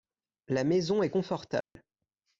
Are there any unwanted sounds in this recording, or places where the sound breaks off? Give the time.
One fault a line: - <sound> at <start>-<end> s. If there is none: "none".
- dropout at 1.6-1.8 s